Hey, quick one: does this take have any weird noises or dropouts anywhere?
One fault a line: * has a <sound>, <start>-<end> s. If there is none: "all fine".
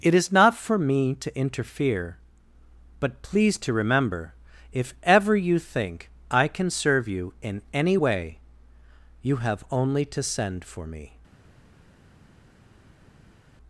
all fine